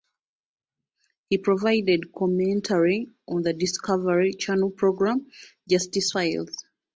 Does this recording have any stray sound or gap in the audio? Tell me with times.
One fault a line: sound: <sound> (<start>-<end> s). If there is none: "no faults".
no faults